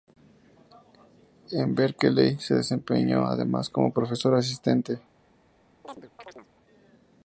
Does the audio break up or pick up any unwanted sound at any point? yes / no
yes